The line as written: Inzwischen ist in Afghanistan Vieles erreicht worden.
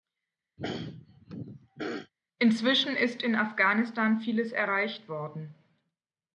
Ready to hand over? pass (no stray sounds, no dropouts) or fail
fail